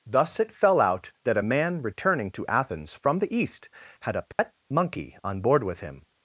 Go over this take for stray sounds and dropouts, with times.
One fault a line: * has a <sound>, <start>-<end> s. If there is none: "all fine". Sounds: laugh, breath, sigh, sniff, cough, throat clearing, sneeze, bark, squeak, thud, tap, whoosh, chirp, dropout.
* has a dropout, 4.3-4.4 s